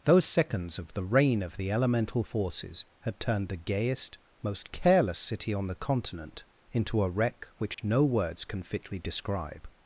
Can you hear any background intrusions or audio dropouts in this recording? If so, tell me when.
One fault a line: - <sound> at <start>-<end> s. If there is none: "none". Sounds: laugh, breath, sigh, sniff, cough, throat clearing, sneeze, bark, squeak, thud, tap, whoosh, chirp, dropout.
- dropout at 7.7-7.8 s